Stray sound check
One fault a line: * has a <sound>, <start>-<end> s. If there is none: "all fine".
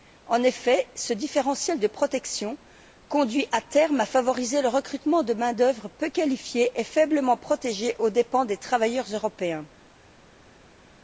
all fine